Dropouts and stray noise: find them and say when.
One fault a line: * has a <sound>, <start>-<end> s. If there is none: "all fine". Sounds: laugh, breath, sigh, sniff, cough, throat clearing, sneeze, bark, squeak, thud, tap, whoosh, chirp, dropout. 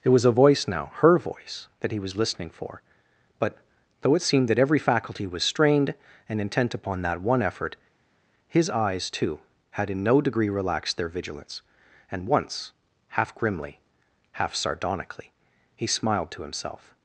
all fine